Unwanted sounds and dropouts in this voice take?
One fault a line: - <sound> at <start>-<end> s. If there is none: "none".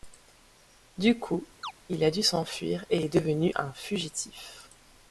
- chirp at 1.6-1.7 s